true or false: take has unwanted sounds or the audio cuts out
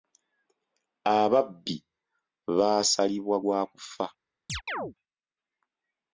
true